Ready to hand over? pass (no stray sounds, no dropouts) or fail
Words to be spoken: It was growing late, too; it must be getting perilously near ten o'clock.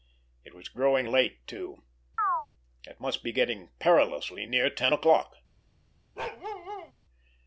fail